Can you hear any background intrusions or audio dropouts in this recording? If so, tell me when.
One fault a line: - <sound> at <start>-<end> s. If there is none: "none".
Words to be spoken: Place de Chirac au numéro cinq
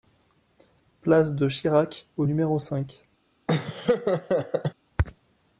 - laugh at 3.5-4.7 s